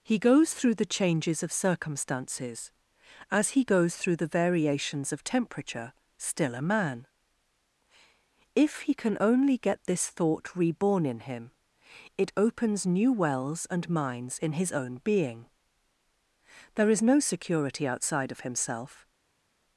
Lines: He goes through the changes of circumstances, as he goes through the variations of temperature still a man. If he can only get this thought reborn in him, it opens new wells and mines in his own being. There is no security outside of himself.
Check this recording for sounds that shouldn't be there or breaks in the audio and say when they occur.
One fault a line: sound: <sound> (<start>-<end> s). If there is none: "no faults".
no faults